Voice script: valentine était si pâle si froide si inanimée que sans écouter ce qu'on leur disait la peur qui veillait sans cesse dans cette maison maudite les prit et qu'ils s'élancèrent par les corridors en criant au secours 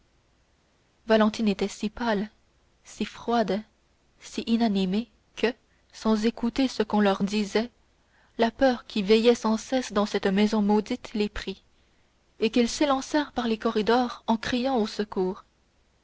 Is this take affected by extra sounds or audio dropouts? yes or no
no